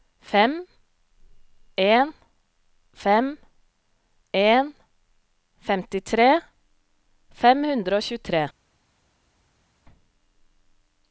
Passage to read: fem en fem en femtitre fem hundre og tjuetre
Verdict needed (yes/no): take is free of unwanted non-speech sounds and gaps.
yes